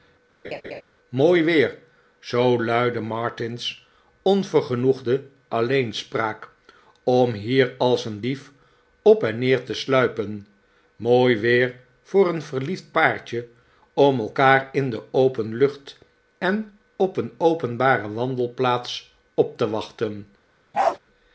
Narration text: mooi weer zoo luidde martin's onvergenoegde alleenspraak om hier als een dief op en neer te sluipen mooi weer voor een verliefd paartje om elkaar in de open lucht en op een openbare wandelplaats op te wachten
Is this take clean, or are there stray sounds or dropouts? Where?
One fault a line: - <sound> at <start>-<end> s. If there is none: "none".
- laugh at 0.4-0.8 s
- bark at 20.7-21.0 s